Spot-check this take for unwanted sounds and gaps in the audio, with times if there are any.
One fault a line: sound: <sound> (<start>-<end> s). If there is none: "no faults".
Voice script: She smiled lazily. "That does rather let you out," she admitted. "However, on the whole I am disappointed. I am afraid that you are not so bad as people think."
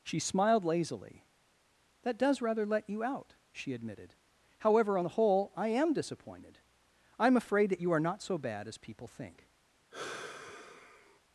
sound: sigh (9.9-11.2 s)